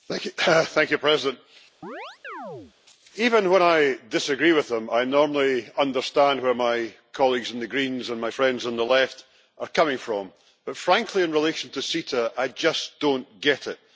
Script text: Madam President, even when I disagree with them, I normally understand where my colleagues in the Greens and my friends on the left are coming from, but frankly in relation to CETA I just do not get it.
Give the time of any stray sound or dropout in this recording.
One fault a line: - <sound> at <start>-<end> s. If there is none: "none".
- chirp at 1.8-2.7 s